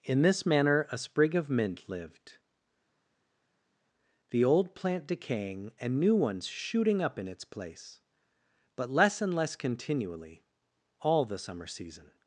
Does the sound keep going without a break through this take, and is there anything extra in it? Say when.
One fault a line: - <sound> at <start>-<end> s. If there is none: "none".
none